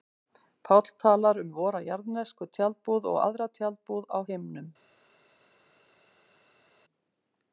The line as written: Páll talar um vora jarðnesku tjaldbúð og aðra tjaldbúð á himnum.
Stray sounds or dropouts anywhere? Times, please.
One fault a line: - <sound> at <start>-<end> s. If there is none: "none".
none